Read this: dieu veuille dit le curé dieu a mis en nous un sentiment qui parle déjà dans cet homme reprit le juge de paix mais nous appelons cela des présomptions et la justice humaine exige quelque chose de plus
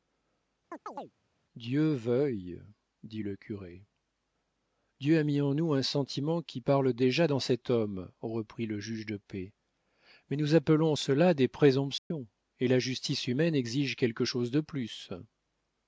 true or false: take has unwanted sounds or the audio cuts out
true